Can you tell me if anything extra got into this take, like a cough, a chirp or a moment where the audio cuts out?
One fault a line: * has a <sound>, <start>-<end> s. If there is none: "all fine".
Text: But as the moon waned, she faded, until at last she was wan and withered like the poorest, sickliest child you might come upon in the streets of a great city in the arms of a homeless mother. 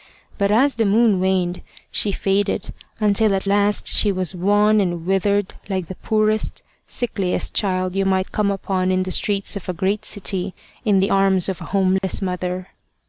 * has a dropout, 12.0-12.0 s